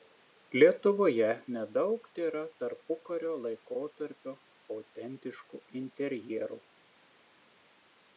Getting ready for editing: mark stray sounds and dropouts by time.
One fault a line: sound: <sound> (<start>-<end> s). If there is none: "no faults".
no faults